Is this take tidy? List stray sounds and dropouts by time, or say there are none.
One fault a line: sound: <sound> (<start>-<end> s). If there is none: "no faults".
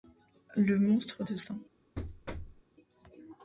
sound: thud (2.0-2.6 s)